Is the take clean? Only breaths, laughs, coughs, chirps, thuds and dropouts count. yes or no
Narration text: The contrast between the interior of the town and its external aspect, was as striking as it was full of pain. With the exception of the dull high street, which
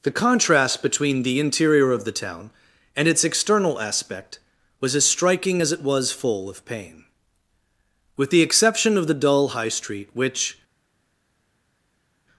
yes